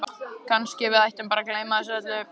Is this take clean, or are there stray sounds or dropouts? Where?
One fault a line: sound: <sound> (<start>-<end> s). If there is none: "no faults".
no faults